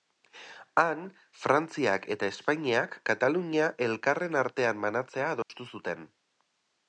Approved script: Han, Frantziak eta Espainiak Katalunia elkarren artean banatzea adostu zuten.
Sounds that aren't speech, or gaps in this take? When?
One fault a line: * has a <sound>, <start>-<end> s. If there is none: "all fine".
* has a dropout, 5.4-5.5 s